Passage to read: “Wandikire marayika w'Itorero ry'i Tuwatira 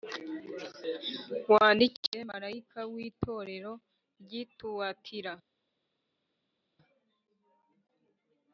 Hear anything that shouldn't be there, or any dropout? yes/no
no